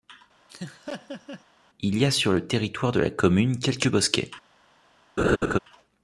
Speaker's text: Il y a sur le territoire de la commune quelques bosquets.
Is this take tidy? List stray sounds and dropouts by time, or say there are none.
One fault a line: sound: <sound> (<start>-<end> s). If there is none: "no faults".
sound: laugh (0.5-1.4 s)
sound: laugh (5.2-5.6 s)